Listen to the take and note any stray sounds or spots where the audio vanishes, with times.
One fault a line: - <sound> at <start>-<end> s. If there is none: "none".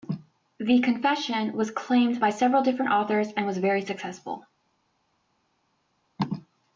none